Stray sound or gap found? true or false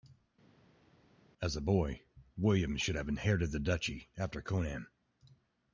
false